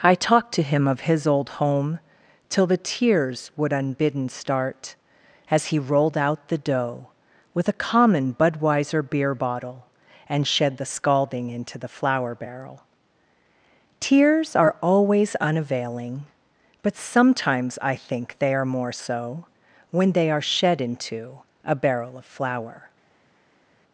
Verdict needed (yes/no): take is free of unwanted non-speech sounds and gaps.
yes